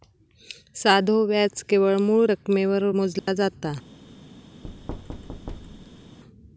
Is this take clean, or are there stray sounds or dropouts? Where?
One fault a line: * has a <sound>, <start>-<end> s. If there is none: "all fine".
* has a dropout, 3.2-3.3 s
* has a thud, 4.6-6.2 s